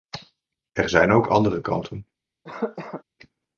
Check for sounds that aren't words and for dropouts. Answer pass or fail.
fail